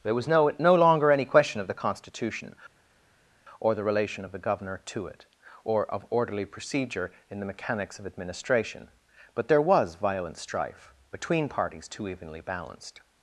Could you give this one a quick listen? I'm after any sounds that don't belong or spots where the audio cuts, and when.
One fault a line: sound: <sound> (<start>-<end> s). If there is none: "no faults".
no faults